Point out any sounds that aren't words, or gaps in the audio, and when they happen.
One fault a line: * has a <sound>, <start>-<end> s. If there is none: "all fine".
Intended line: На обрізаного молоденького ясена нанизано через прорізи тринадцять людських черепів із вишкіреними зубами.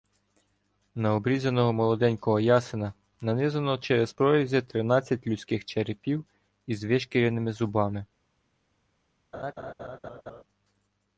* has a laugh, 9.3-10.4 s